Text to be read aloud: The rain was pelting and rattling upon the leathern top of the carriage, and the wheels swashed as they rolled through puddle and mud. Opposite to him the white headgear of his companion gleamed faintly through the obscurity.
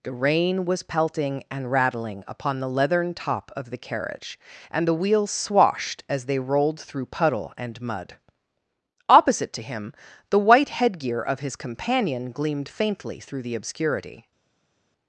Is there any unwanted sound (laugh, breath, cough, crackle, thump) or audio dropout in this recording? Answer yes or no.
no